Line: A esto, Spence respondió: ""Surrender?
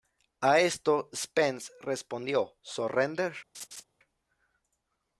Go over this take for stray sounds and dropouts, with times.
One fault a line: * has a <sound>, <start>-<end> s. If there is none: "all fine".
* has a laugh, 3.5-3.8 s